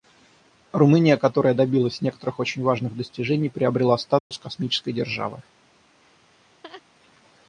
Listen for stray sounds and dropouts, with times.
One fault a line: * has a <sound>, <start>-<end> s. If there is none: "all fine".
* has a dropout, 4.2-4.3 s
* has a laugh, 6.0-6.8 s